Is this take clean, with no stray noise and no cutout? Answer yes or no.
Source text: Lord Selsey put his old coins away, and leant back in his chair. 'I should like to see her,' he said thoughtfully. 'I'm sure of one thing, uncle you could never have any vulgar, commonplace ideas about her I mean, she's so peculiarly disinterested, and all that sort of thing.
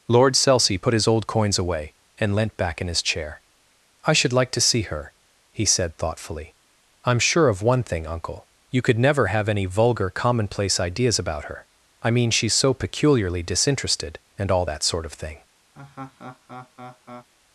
no